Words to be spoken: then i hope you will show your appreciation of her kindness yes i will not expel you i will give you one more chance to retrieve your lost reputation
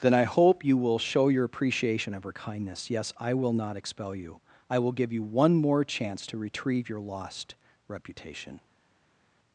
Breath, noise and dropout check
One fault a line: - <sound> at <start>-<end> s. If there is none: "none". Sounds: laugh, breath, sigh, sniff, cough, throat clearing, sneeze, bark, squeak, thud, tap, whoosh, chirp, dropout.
none